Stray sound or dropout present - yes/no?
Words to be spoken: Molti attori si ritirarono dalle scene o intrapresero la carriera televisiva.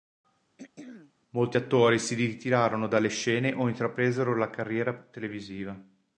yes